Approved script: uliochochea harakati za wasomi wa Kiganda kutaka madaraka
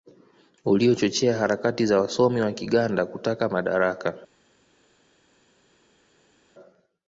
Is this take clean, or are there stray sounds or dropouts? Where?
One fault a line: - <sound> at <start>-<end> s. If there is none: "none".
none